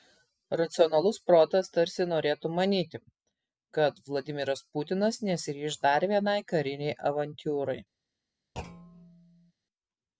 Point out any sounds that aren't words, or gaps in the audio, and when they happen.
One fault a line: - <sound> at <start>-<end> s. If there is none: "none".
- thud at 8.6-9.5 s